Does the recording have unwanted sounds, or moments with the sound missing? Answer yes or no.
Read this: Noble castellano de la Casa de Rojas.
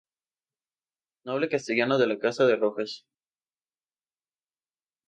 no